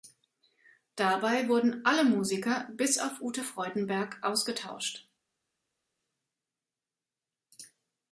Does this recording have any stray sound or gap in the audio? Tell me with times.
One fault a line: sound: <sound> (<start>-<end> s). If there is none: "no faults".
no faults